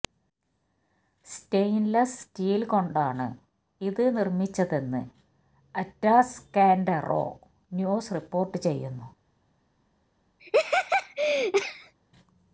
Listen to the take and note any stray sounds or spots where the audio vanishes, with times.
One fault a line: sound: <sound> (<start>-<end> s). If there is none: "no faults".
sound: laugh (10.4-11.9 s)